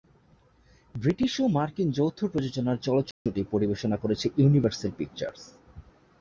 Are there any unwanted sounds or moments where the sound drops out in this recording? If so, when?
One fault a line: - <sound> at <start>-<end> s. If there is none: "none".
- dropout at 3.1-3.3 s